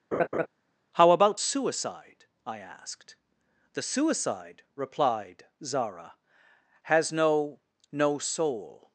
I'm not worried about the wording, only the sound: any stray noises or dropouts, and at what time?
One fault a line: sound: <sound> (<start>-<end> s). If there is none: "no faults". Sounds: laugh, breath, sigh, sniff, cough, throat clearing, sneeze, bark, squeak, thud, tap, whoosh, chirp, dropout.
sound: laugh (0.1-0.5 s)